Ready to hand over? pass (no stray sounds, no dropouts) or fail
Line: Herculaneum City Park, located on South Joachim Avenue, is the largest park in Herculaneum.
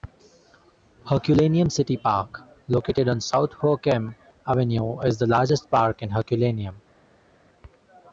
pass